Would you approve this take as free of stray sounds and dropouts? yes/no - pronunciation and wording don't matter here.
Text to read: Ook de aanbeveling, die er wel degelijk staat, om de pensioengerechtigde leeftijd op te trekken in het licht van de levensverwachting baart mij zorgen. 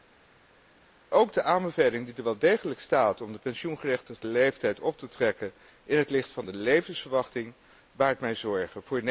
yes